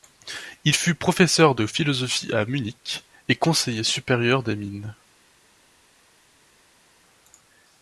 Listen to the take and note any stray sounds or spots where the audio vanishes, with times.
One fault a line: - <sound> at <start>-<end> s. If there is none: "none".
none